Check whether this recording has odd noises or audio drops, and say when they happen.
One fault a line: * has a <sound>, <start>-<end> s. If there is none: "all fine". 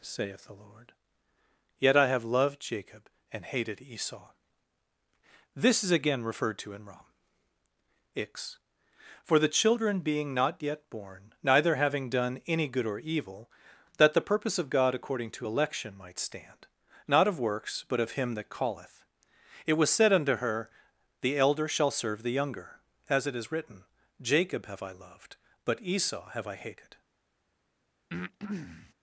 * has a breath, 28.1-28.9 s